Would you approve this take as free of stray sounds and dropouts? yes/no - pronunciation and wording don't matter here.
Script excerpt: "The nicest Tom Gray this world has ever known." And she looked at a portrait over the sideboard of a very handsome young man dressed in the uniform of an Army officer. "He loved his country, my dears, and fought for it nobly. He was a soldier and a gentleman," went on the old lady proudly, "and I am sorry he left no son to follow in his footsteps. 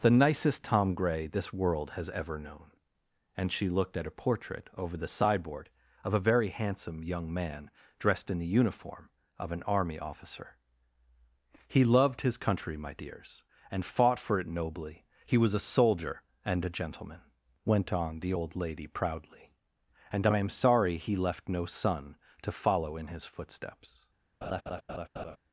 no